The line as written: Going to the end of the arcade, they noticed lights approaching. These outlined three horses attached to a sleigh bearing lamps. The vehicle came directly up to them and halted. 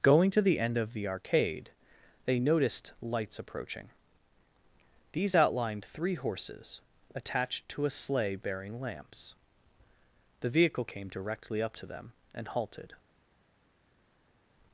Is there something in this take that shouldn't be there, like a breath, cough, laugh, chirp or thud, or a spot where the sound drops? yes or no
no